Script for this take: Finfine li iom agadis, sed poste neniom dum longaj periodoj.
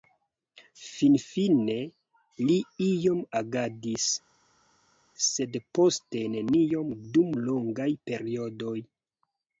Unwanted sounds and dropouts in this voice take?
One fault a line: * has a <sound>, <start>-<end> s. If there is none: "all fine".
all fine